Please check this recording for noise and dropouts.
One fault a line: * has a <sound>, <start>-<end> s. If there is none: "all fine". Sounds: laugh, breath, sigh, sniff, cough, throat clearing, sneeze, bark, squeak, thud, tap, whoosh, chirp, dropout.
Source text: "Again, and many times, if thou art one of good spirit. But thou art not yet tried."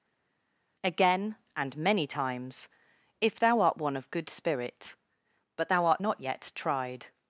all fine